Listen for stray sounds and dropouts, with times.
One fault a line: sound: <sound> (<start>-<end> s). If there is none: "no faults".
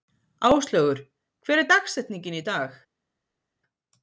no faults